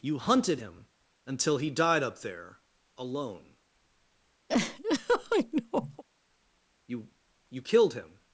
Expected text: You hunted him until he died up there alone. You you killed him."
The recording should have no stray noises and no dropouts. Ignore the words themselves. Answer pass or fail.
fail